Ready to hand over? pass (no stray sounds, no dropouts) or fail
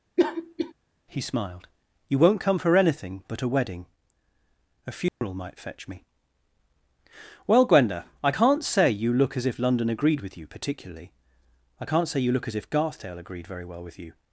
fail